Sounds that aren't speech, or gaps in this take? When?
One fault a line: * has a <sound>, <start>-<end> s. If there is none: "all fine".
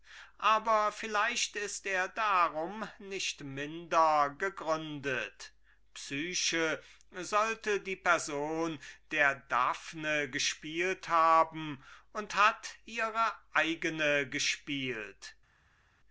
all fine